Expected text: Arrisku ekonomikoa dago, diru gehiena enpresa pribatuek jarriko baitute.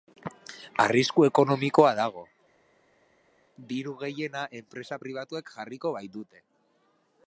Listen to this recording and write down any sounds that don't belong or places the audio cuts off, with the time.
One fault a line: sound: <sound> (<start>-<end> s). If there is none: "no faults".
no faults